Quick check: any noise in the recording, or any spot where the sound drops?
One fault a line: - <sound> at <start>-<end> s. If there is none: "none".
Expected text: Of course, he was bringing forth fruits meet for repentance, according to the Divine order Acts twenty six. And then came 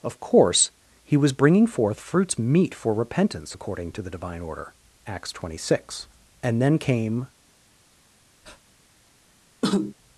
- breath at 8.4-8.6 s
- cough at 9.6-9.9 s